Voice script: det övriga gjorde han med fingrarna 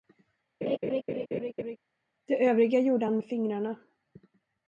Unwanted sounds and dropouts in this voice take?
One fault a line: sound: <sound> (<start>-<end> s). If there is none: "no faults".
sound: laugh (0.6-1.8 s)